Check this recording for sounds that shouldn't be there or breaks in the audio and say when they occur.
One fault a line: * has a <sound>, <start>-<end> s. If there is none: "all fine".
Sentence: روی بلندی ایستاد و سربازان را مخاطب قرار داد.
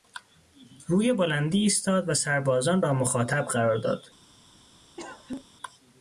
* has a cough, 5.0-5.5 s